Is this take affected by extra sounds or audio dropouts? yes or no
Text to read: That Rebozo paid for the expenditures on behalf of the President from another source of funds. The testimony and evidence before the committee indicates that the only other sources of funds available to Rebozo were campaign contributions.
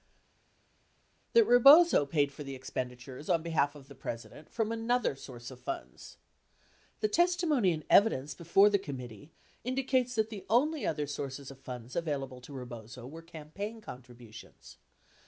no